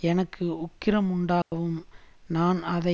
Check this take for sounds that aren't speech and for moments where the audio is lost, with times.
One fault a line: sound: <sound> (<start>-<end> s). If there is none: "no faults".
sound: dropout (1.4-1.5 s)